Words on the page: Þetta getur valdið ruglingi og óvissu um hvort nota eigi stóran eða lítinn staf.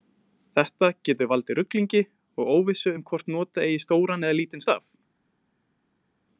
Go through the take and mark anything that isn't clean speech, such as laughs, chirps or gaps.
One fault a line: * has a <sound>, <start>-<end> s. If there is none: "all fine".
all fine